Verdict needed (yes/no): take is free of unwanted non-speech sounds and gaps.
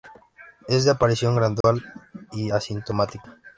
no